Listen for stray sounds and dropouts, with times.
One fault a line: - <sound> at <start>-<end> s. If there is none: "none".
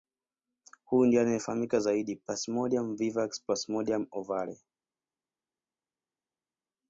none